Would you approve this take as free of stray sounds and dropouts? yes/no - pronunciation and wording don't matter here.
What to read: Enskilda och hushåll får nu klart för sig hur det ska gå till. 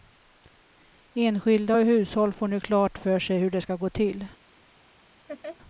no